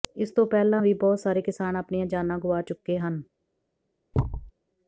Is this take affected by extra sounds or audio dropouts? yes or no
yes